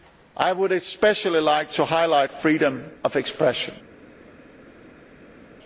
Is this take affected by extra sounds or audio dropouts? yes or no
no